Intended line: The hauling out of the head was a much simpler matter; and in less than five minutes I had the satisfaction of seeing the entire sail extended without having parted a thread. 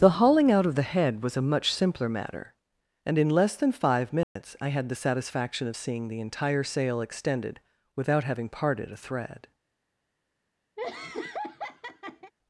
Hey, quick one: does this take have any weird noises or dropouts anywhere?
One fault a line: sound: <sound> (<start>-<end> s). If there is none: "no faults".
sound: dropout (4.2-4.4 s)
sound: laugh (10.8-12.3 s)